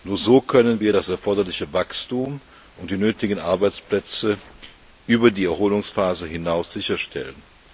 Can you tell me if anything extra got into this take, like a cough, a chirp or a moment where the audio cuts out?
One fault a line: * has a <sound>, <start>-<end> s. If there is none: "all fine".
all fine